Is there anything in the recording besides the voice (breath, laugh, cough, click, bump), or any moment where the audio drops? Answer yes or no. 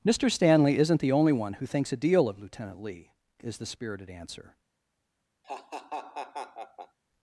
yes